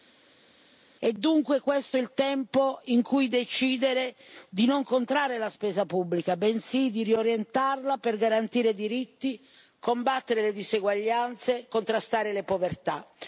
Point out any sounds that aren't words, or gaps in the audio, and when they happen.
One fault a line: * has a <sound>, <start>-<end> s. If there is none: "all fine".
all fine